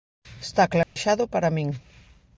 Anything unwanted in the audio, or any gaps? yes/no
yes